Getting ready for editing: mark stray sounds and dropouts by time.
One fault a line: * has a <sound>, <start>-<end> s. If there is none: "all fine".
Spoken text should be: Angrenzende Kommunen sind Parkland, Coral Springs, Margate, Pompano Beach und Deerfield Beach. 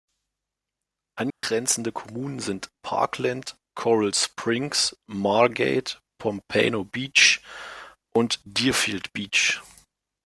* has a dropout, 1.3-1.4 s